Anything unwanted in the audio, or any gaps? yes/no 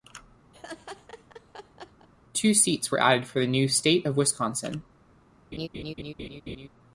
yes